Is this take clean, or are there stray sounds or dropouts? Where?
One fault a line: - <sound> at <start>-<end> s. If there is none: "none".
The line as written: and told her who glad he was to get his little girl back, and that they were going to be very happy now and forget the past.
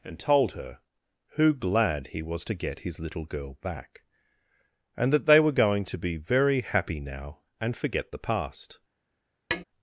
- tap at 9.5-9.6 s